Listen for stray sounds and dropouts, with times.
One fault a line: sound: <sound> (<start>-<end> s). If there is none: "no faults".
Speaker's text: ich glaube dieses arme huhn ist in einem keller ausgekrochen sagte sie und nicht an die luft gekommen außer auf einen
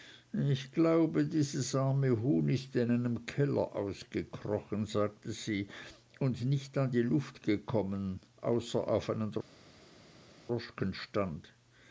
no faults